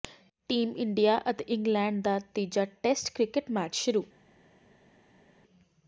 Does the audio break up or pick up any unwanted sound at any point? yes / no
no